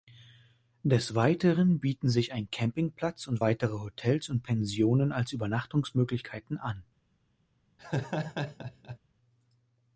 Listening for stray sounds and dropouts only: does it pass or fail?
fail